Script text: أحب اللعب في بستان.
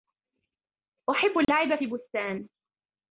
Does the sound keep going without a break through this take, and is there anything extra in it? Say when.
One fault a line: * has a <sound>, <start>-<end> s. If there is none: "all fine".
* has a dropout, 1.4-1.5 s